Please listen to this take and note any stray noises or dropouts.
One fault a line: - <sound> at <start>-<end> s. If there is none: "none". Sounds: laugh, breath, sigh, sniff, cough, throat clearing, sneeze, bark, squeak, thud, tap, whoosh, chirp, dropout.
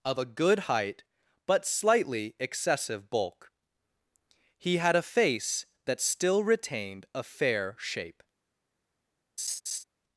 - laugh at 9.4-9.8 s